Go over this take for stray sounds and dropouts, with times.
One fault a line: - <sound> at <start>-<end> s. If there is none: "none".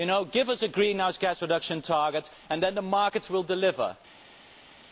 none